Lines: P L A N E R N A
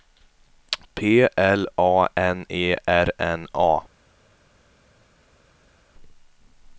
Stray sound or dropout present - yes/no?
no